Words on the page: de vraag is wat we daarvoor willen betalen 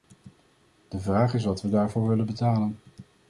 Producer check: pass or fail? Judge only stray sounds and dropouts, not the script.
pass